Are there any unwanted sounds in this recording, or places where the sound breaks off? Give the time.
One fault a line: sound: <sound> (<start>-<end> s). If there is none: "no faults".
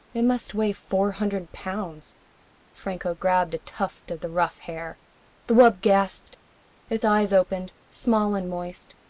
no faults